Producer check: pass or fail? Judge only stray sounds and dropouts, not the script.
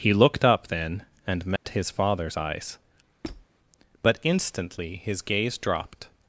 fail